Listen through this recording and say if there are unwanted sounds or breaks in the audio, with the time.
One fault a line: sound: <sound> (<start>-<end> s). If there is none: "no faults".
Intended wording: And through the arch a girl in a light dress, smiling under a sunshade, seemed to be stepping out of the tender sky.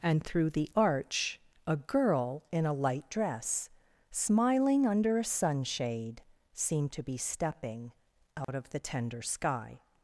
sound: dropout (8.4-8.5 s)